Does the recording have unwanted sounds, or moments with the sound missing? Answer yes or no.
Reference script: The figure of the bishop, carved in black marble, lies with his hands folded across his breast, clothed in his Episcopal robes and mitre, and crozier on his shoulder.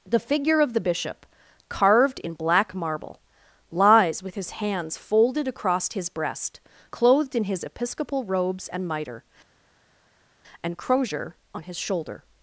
no